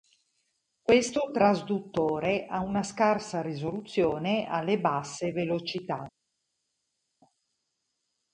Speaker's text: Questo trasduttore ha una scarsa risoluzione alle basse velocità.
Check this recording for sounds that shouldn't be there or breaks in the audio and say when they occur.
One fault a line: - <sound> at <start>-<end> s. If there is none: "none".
none